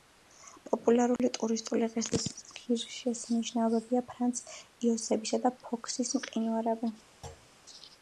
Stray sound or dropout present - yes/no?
yes